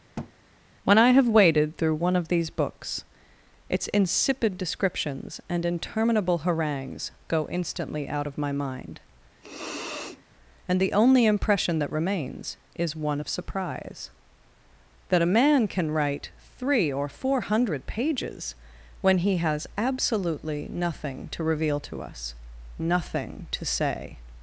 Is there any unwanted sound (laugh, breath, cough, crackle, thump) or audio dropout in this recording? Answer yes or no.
yes